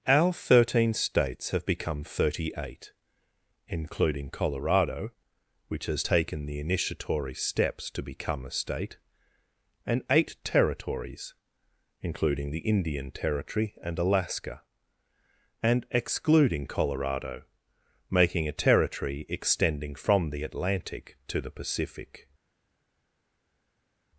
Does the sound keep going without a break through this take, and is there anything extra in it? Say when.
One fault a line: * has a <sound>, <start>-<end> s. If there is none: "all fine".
all fine